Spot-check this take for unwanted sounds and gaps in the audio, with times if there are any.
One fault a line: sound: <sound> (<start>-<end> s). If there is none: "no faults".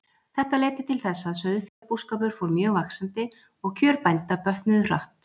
sound: dropout (1.7-1.8 s)